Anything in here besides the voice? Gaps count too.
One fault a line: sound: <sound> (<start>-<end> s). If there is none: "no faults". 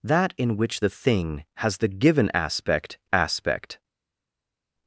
no faults